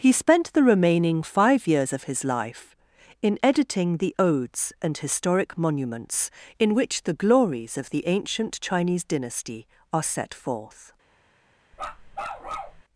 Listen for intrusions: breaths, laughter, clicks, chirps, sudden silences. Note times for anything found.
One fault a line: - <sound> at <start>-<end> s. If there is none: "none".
- bark at 11.7-12.8 s